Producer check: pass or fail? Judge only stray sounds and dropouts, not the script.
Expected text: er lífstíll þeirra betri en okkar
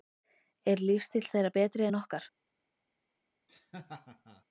fail